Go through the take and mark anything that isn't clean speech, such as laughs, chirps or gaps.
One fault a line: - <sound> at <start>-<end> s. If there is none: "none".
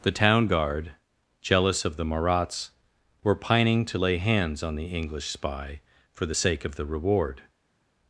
none